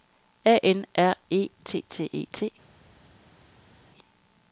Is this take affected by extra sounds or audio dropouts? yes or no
no